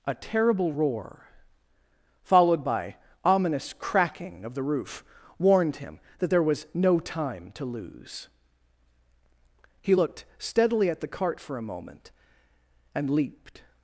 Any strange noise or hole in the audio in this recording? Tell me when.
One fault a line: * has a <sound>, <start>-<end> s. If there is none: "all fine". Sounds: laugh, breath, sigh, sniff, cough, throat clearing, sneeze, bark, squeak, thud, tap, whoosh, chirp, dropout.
all fine